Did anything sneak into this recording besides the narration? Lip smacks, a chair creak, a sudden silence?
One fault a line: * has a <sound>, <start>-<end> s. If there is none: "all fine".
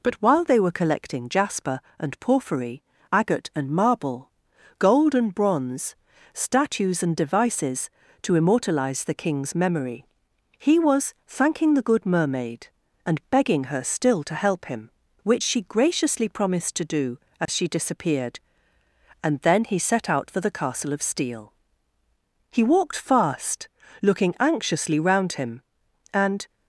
* has a dropout, 17.5-17.5 s